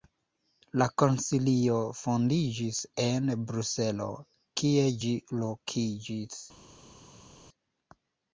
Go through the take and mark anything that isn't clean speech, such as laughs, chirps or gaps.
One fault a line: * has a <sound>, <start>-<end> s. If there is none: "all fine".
all fine